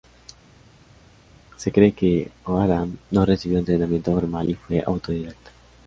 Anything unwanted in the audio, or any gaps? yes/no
no